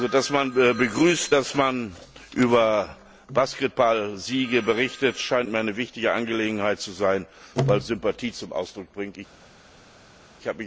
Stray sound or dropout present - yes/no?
no